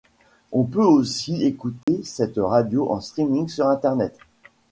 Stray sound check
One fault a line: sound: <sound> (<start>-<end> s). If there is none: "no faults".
sound: dropout (1.8-1.9 s)